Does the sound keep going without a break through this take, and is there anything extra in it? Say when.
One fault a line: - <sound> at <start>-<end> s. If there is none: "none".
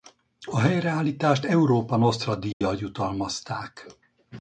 - dropout at 2.5-2.6 s